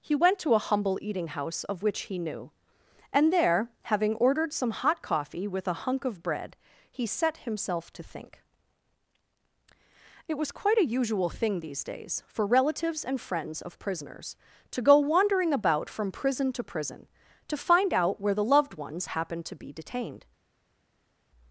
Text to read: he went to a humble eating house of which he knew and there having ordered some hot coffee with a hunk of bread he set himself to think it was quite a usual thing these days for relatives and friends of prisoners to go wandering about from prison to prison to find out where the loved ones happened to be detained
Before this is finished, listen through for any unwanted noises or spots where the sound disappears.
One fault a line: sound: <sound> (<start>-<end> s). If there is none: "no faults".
no faults